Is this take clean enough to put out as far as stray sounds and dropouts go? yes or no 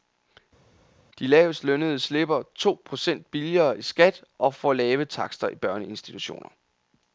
yes